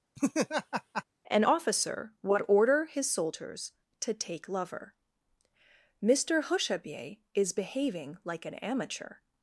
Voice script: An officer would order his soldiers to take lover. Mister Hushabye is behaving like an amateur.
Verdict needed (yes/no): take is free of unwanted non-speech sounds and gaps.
no